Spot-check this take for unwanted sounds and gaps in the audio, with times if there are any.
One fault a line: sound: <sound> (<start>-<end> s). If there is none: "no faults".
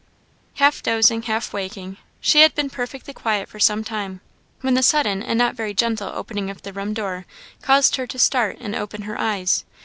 no faults